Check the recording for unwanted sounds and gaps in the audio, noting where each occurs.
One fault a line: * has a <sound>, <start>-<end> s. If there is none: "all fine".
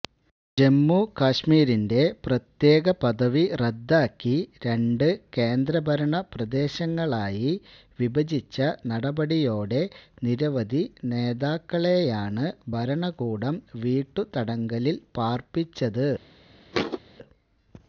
* has a thud, 16.7-17.0 s